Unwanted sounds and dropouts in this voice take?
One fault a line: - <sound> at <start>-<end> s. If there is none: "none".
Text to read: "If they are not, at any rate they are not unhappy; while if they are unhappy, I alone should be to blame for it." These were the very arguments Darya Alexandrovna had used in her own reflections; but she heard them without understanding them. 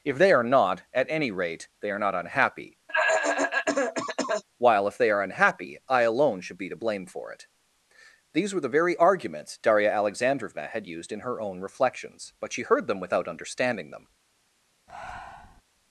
- cough at 2.9-4.4 s
- breath at 14.9-15.6 s